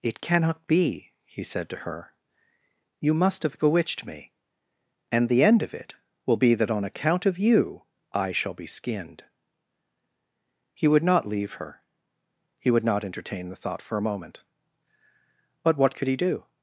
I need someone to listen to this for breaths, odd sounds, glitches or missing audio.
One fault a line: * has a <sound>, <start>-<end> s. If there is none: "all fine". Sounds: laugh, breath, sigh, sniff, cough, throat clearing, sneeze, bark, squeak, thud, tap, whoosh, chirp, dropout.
all fine